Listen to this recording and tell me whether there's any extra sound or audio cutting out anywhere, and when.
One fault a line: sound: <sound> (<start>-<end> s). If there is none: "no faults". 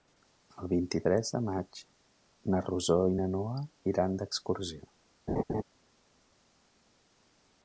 sound: laugh (5.3-5.6 s)